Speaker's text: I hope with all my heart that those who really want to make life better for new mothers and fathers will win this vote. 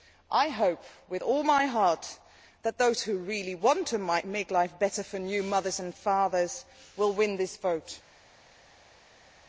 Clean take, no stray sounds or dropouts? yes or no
yes